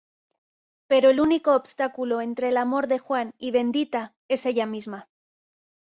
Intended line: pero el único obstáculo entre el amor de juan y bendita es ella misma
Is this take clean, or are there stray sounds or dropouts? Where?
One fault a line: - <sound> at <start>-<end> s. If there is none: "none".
none